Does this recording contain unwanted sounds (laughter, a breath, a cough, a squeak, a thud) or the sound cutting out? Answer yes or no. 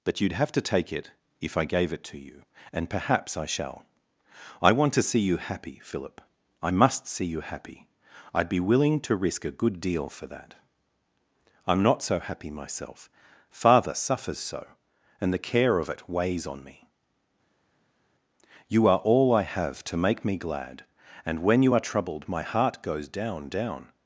no